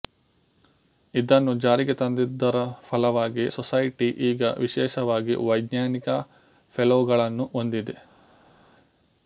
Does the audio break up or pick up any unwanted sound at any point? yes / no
no